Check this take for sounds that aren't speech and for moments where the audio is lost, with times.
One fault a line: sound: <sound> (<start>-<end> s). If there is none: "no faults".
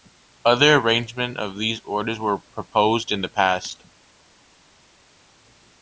no faults